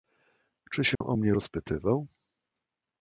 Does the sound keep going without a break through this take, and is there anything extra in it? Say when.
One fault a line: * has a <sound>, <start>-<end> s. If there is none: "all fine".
* has a dropout, 1.0-1.0 s